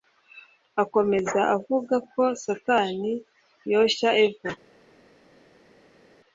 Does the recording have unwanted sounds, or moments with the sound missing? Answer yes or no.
no